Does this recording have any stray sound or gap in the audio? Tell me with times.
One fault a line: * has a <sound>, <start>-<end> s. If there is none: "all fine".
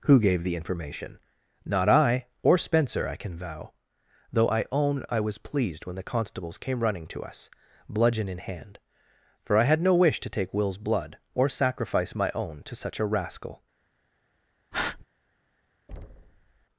* has a breath, 14.7-15.1 s
* has a thud, 15.9-16.7 s